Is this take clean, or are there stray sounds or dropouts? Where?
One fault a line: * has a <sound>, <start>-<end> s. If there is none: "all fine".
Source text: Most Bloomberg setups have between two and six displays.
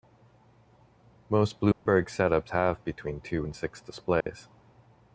* has a dropout, 1.7-1.9 s
* has a dropout, 4.2-4.3 s